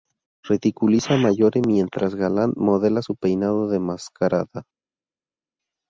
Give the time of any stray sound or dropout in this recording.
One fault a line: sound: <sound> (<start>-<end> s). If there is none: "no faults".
no faults